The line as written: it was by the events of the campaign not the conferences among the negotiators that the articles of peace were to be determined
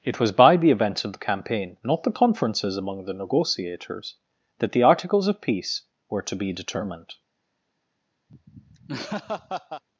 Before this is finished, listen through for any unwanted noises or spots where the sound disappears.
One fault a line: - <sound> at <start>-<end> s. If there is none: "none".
- laugh at 8.3-9.8 s